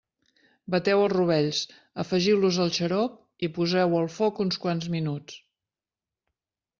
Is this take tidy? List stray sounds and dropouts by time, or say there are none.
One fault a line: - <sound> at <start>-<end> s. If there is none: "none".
none